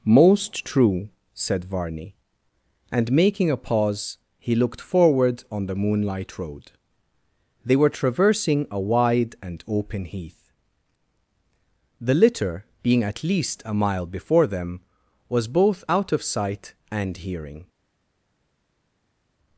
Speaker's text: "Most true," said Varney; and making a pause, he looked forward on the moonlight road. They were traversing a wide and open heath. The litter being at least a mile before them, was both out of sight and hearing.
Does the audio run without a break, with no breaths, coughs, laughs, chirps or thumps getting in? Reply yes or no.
yes